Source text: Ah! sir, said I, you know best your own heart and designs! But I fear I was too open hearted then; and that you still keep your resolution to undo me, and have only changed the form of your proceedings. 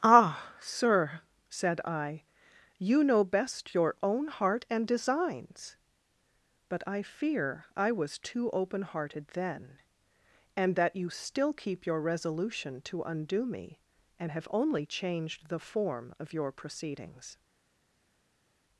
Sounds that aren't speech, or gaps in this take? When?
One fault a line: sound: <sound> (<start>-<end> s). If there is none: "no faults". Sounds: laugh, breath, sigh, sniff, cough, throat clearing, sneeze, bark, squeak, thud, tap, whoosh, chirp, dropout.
no faults